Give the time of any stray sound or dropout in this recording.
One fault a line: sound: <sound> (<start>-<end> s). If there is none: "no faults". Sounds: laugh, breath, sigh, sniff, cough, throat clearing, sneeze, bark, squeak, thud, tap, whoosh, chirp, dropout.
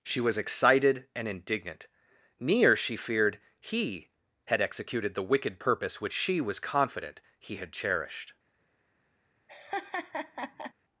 sound: laugh (9.5-10.7 s)